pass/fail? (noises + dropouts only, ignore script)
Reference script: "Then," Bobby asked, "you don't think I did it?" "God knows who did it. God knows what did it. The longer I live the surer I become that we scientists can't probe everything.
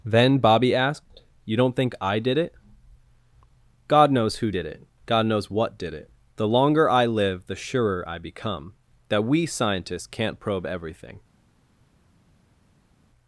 pass